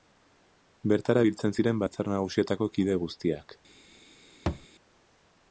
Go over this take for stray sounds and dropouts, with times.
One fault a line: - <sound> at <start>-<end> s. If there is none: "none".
- thud at 4.5-4.7 s